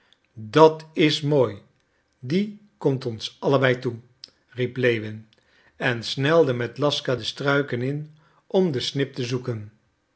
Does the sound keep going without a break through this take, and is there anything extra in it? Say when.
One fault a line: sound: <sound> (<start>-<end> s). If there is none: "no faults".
no faults